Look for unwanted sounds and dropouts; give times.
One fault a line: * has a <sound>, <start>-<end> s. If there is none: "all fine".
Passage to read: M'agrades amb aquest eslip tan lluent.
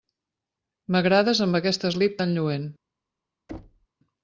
* has a thud, 3.5-3.9 s